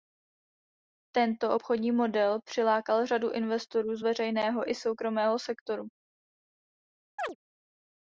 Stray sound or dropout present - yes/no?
yes